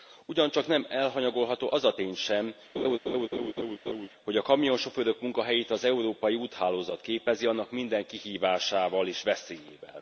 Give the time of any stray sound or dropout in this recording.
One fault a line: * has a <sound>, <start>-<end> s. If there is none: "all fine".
* has a laugh, 2.8-4.1 s